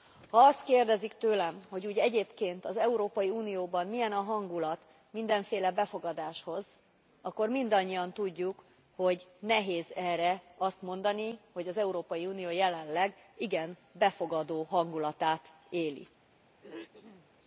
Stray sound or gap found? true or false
true